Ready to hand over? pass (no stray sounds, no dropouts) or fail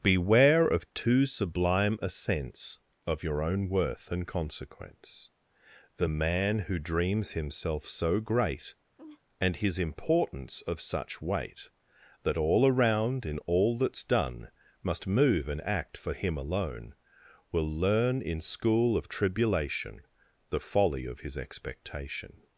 fail